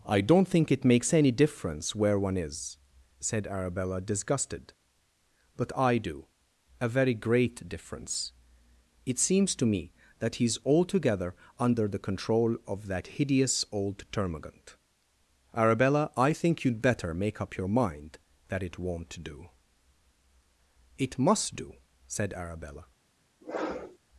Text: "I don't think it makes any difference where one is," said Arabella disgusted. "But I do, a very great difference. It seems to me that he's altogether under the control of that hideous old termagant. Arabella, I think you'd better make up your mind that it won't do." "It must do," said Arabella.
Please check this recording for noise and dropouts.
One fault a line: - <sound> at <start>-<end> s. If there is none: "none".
- sniff at 23.4-24.0 s